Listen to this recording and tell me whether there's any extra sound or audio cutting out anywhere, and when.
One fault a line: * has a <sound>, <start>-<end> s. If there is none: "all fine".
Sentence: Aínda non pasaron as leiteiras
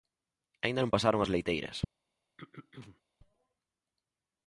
* has a throat clearing, 2.4-3.0 s